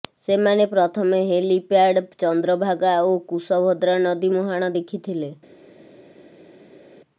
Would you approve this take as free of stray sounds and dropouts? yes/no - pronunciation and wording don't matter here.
yes